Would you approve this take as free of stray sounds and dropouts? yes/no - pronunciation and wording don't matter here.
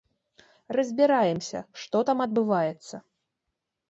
yes